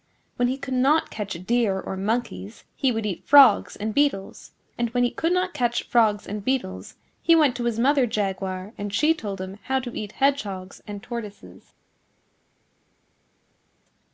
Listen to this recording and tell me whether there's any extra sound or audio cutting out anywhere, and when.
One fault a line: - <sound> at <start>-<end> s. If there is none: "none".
none